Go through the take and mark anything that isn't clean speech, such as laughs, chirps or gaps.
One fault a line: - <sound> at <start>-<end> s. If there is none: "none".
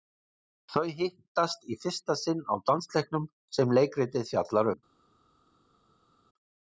none